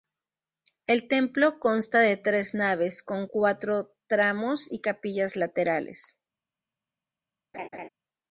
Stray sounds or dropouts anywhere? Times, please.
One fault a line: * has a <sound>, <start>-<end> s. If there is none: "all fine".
* has a laugh, 7.5-7.9 s